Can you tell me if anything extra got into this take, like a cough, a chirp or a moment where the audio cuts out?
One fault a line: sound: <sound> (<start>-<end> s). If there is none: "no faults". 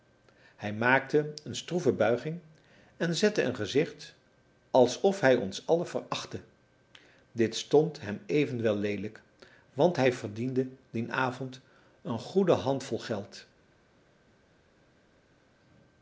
no faults